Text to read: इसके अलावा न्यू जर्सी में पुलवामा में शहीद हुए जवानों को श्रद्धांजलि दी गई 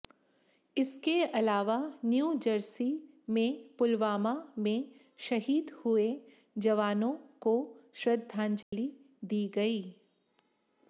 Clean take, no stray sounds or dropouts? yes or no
no